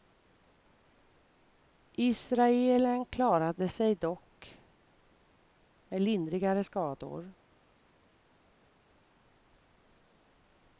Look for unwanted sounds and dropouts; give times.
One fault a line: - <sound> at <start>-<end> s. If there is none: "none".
none